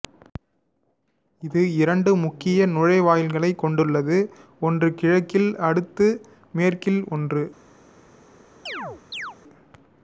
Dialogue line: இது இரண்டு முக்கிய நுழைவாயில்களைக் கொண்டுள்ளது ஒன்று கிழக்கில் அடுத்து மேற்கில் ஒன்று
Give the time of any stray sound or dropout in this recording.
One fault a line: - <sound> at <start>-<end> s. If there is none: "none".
- chirp at 8.7-9.4 s